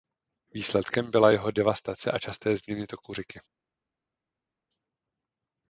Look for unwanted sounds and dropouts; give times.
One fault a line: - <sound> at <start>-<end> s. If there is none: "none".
none